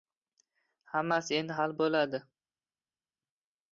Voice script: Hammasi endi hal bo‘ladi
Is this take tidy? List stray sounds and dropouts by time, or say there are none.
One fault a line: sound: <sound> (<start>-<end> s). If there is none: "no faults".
no faults